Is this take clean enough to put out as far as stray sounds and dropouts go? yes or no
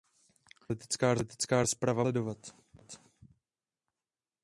yes